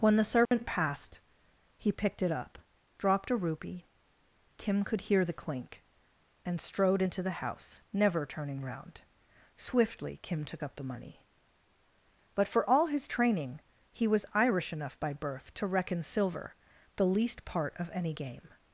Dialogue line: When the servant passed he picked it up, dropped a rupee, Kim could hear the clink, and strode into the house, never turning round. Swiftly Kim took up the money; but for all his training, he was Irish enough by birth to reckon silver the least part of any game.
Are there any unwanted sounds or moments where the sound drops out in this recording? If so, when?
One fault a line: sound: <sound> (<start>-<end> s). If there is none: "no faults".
sound: dropout (0.5-0.5 s)